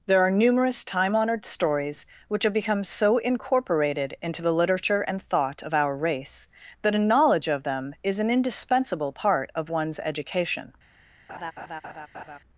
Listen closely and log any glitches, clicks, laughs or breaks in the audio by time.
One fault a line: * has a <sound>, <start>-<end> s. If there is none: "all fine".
* has a laugh, 11.3-12.4 s